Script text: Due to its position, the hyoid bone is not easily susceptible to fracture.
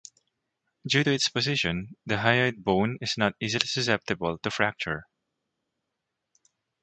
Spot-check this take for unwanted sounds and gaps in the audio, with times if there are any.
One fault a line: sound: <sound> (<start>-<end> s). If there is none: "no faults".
no faults